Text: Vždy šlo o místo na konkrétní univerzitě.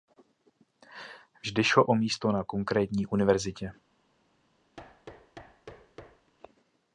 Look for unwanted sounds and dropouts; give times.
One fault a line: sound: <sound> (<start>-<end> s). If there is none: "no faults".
sound: thud (4.8-6.3 s)